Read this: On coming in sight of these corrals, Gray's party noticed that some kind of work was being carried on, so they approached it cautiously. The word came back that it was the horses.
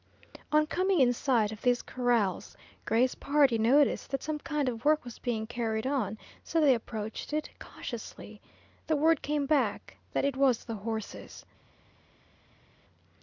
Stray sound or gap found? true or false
false